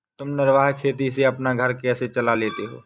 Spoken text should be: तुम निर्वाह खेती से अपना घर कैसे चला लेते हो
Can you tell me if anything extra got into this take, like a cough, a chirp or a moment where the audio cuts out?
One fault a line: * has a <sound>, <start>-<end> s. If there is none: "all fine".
all fine